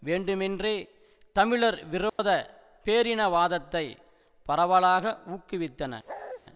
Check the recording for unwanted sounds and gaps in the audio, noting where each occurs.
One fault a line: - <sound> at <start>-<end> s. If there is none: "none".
- dropout at 2.1-2.2 s
- bark at 6.1-6.4 s